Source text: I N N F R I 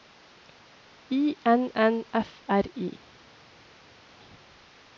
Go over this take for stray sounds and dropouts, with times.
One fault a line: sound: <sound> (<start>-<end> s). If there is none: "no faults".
no faults